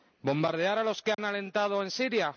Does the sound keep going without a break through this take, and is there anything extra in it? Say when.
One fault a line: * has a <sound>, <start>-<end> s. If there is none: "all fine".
* has a dropout, 1.1-1.2 s